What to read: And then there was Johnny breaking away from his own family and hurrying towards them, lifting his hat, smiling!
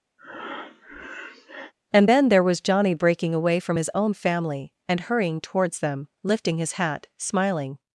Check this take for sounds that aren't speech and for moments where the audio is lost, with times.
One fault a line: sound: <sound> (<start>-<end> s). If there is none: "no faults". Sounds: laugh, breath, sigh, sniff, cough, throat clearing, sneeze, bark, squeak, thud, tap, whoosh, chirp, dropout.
sound: breath (0.2-1.7 s)